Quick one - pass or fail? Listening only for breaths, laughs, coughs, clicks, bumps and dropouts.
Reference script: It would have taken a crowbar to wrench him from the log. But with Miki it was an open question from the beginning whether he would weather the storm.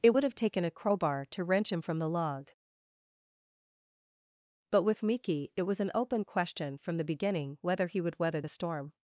pass